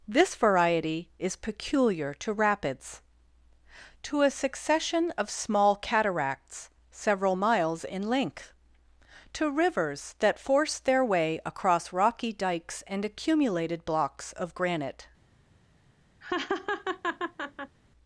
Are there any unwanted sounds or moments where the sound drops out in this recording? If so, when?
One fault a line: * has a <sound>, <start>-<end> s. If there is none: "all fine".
* has a laugh, 16.2-17.8 s